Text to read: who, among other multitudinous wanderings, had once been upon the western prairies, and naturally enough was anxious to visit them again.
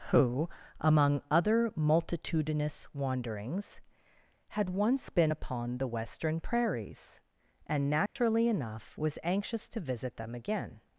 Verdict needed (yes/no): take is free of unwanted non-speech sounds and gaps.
no